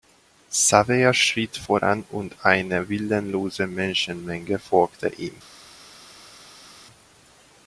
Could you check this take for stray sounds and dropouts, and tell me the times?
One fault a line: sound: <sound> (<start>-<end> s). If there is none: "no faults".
no faults